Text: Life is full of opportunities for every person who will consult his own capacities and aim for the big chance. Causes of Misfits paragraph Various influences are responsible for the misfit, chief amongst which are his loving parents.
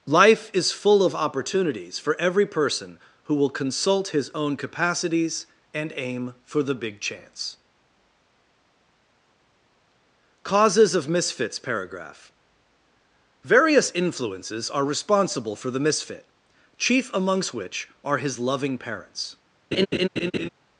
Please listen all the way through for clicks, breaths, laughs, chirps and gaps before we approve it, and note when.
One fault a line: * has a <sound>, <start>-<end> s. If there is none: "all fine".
* has a laugh, 19.7-20.5 s